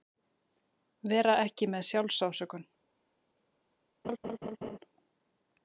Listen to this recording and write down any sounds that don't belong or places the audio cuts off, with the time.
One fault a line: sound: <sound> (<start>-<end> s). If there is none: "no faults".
sound: laugh (4.0-4.8 s)